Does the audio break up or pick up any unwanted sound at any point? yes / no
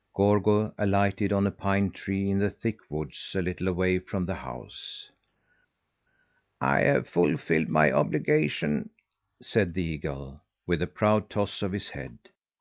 no